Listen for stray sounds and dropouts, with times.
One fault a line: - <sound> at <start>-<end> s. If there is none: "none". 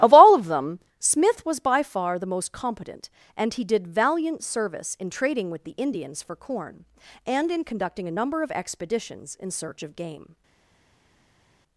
none